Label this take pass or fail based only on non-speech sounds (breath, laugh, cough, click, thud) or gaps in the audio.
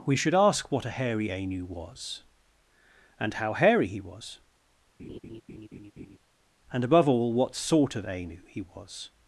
fail